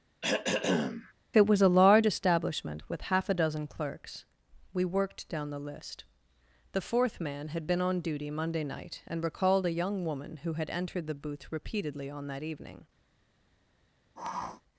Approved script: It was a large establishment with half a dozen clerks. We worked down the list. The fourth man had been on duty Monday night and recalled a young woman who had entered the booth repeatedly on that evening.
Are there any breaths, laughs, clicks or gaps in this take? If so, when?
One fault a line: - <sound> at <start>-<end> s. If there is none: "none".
- throat clearing at 0.2-1.1 s
- sniff at 14.2-14.6 s